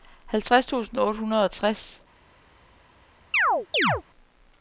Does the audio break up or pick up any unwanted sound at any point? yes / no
yes